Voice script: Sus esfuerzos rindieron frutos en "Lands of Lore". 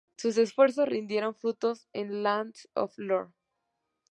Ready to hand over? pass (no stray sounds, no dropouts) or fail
pass